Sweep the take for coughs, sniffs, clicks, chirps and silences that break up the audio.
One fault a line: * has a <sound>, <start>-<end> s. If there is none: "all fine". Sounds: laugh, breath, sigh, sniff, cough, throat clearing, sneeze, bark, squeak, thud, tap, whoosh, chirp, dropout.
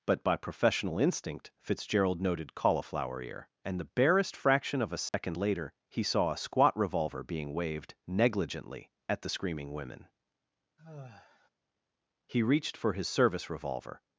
* has a dropout, 5.1-5.1 s
* has a sigh, 10.8-11.5 s